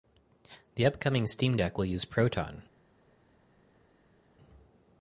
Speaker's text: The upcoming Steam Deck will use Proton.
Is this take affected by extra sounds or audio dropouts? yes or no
no